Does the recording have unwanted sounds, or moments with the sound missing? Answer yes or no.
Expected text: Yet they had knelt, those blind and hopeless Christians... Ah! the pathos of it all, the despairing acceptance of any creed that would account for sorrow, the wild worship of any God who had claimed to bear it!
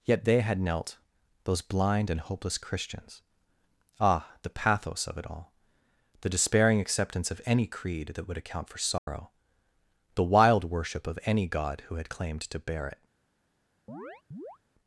yes